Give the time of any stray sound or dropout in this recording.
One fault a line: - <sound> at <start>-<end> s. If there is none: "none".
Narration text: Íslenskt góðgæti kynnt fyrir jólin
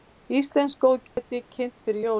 - dropout at 1.1-1.2 s